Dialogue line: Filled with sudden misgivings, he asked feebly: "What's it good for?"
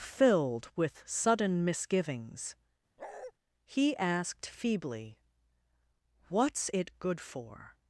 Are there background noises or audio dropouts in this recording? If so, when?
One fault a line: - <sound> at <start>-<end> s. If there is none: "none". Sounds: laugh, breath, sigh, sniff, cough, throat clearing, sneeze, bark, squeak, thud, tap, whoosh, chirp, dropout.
- bark at 3.0-3.3 s